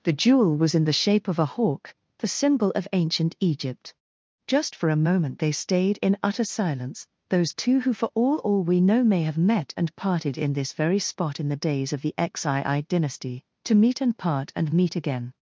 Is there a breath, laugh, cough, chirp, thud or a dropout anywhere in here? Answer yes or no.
no